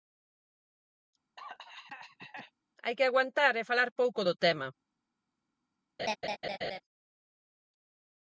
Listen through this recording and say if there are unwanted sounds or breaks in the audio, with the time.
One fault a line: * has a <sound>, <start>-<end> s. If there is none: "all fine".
* has a cough, 1.4-2.5 s
* has a laugh, 6.0-6.8 s